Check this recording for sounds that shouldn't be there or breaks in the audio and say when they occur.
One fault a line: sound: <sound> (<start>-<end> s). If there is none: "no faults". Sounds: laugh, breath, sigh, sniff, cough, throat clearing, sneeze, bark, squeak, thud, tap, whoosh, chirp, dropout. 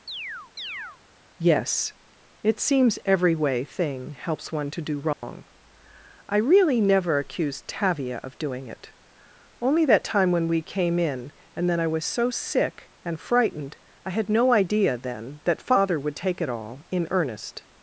sound: chirp (0.1-1.0 s)
sound: dropout (5.1-5.2 s)